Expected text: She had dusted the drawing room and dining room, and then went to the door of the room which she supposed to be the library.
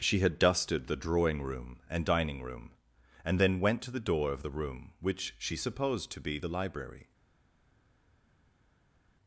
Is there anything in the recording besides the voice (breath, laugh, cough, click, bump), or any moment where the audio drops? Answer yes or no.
no